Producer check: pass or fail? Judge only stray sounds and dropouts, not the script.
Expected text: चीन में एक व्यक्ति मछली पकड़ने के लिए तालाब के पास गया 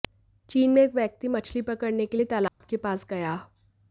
fail